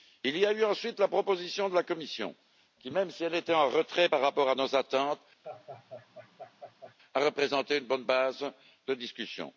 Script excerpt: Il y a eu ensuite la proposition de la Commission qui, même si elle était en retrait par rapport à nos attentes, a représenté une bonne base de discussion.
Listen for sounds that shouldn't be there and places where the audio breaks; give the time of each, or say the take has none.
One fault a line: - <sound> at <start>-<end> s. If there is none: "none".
- laugh at 5.4-6.9 s